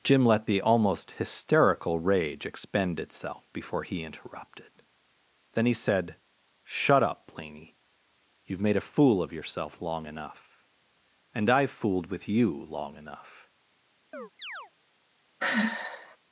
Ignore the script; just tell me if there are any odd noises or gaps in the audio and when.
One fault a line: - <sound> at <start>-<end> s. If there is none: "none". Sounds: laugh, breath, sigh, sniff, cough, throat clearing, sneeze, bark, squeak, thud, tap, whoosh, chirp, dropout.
- chirp at 14.1-14.7 s
- sigh at 15.4-16.2 s